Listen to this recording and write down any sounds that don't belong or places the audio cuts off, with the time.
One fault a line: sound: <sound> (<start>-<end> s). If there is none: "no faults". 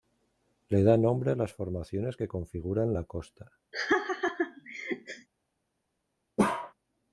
sound: laugh (3.7-5.3 s)
sound: bark (6.4-6.7 s)